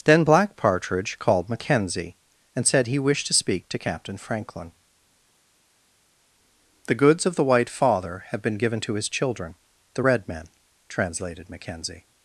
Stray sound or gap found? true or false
false